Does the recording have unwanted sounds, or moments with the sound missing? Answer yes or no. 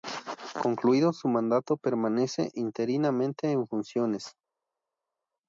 no